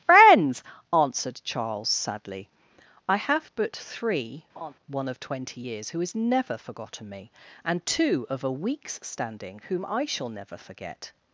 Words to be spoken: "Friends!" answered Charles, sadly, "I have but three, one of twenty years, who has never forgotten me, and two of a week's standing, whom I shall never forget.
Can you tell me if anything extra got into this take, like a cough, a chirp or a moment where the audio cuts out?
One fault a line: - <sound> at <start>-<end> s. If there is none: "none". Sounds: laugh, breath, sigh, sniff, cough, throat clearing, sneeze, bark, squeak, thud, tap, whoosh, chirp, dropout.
- laugh at 4.5-4.7 s